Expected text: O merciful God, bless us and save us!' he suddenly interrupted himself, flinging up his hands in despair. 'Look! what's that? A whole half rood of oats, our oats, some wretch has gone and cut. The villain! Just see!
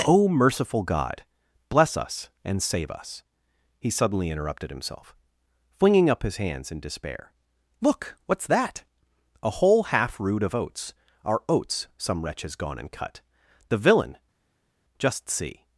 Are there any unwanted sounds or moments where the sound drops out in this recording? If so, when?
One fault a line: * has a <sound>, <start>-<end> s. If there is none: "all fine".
all fine